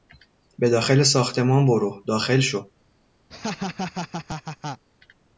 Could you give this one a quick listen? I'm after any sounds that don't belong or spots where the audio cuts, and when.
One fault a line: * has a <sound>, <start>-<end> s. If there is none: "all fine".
* has a laugh, 3.3-4.8 s